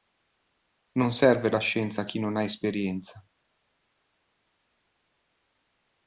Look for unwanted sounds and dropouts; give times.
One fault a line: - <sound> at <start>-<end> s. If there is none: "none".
none